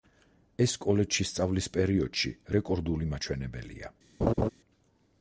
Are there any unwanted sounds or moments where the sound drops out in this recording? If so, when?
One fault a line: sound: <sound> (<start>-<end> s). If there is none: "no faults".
sound: laugh (4.2-4.5 s)